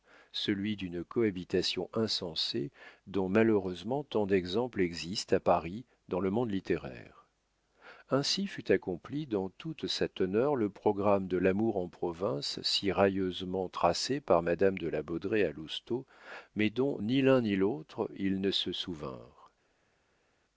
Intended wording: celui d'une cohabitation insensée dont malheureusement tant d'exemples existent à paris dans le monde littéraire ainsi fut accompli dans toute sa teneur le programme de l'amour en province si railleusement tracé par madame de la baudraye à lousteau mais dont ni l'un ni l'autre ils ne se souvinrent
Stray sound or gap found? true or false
false